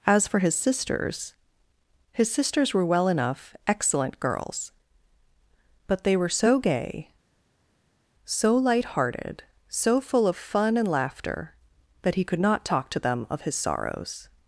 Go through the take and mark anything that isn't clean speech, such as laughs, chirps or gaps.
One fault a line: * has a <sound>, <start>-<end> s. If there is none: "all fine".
all fine